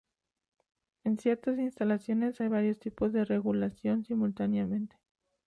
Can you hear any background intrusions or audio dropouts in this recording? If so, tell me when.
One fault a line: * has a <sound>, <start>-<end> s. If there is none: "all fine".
all fine